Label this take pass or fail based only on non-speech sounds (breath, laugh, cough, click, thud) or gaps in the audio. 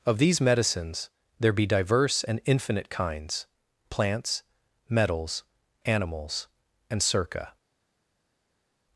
pass